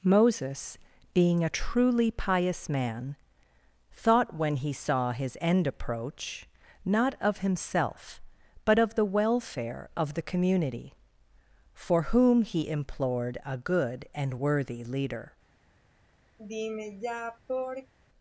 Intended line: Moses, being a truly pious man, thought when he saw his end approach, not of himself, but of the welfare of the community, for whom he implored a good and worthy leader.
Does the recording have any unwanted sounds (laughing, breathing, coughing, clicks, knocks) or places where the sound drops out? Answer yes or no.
yes